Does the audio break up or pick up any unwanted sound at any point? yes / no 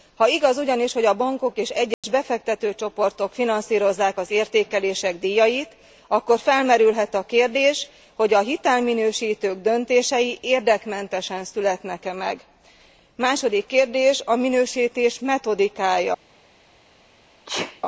yes